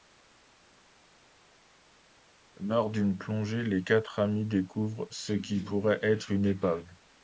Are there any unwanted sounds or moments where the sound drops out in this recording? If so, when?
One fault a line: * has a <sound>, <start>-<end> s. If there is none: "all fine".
all fine